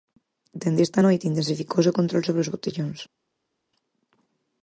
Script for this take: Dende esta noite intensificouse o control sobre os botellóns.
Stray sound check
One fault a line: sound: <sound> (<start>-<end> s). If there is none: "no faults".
no faults